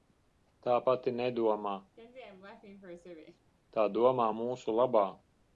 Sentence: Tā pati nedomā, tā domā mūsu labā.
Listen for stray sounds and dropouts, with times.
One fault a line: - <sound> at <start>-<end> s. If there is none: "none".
- laugh at 2.0-3.5 s